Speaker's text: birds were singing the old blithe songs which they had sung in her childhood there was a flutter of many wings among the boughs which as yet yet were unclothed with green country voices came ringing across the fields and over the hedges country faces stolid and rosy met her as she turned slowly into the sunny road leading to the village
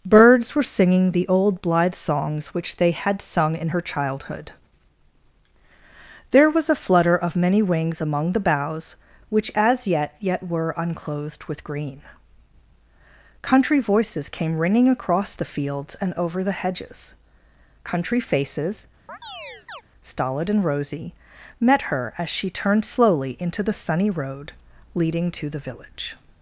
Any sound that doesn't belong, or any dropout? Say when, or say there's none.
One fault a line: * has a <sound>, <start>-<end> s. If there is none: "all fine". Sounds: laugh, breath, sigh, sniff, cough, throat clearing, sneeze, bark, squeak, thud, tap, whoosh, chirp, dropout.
* has a chirp, 19.1-19.8 s